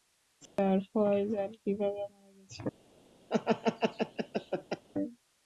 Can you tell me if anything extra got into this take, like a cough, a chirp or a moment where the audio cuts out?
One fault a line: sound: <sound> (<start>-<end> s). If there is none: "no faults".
sound: dropout (0.5-0.6 s)
sound: laugh (3.3-4.8 s)